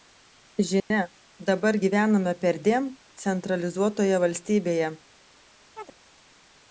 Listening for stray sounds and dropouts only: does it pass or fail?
fail